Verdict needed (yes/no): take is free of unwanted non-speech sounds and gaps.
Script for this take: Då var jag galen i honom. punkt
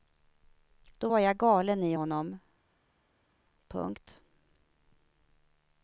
yes